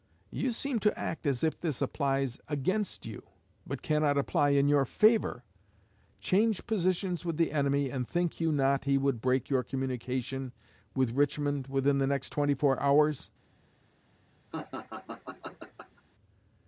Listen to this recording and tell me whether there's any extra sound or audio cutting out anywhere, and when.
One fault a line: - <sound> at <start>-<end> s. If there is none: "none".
- laugh at 14.5-16.0 s